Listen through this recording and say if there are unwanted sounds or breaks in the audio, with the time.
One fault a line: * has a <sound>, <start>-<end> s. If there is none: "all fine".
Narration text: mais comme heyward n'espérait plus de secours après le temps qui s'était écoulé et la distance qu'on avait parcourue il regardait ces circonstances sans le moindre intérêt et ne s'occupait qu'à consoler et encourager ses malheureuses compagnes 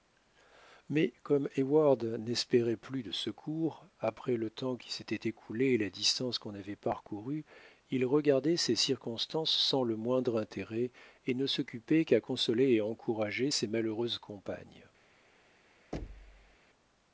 * has a thud, 15.9-16.6 s